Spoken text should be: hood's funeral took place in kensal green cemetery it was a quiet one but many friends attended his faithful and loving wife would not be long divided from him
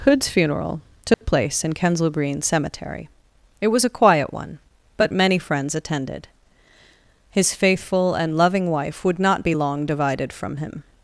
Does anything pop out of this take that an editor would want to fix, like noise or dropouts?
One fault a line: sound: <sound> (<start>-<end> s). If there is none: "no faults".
sound: dropout (1.1-1.2 s)